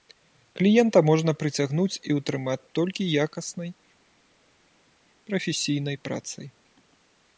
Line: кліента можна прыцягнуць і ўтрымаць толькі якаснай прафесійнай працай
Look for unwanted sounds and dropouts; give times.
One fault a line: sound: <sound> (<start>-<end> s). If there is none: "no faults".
no faults